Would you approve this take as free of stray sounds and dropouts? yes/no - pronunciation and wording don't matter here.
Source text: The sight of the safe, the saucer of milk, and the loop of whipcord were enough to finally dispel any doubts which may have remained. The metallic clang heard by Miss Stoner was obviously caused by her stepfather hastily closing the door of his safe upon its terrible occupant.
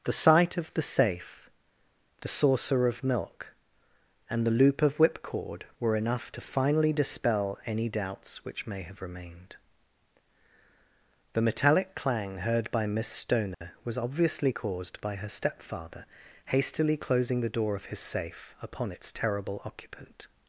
no